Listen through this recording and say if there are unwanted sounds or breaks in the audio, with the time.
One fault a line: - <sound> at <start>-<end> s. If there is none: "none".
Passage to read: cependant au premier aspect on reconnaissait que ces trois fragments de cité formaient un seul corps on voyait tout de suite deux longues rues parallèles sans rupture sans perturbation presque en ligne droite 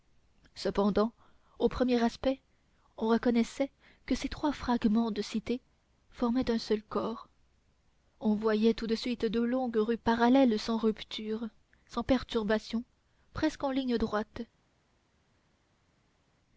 none